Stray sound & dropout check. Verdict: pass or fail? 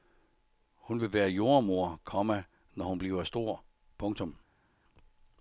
pass